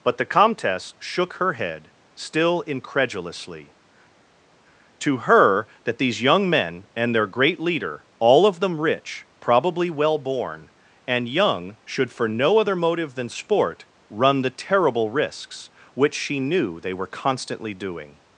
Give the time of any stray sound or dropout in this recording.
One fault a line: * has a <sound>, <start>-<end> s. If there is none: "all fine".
all fine